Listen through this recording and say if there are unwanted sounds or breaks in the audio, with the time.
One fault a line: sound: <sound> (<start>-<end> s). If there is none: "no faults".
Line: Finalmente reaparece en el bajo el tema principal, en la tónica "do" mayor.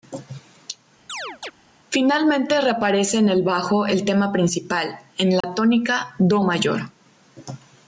sound: chirp (1.1-1.5 s)
sound: dropout (5.4-5.4 s)